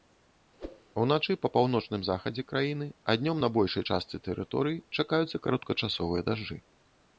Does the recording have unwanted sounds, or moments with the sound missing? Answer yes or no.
yes